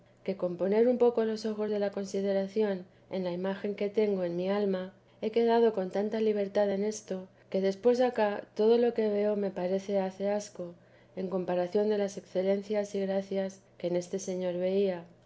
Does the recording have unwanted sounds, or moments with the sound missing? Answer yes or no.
no